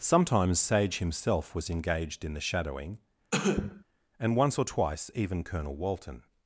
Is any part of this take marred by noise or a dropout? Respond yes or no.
yes